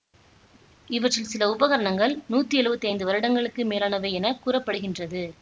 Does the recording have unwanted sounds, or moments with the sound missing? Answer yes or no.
no